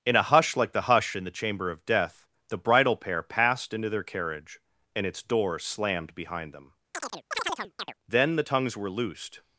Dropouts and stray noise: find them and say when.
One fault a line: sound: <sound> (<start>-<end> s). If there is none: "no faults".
sound: chirp (6.9-7.9 s)